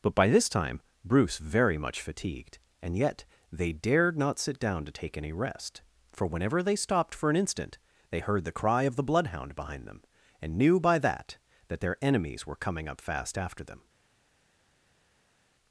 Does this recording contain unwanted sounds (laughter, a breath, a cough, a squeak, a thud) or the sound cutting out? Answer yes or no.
no